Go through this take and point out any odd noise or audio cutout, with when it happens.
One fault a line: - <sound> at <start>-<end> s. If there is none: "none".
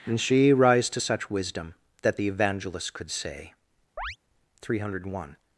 - chirp at 4.0-4.2 s